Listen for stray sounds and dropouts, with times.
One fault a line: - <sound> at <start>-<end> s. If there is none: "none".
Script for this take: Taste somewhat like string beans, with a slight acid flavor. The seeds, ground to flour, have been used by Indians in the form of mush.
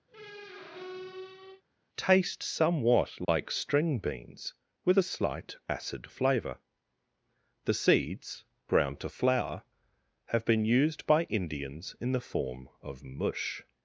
- squeak at 0.1-1.6 s
- dropout at 3.2-3.3 s